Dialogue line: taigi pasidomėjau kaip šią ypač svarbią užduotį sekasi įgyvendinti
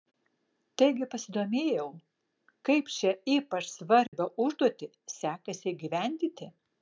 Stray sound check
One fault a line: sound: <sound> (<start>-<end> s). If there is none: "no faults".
sound: dropout (4.1-4.1 s)